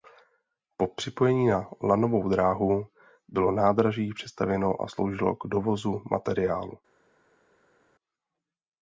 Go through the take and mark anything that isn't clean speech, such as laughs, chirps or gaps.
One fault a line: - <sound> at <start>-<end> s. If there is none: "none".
none